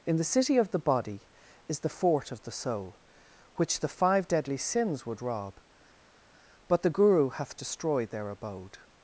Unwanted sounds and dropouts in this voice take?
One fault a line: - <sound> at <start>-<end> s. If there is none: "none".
none